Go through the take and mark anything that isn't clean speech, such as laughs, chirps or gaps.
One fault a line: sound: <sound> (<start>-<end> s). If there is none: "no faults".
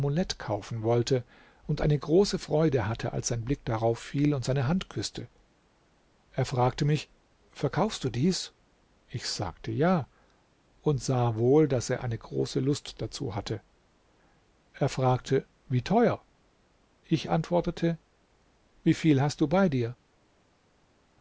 no faults